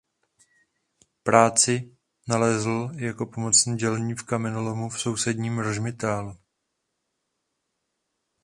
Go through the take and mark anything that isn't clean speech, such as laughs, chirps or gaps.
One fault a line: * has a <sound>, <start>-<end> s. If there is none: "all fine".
all fine